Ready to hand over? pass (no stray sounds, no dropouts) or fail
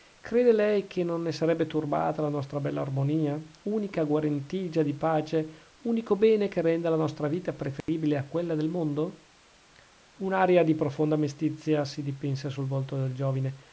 fail